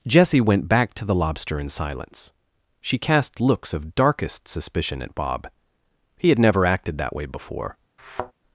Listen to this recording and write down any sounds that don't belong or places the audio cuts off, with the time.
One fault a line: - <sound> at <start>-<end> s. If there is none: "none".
- thud at 8.0-8.3 s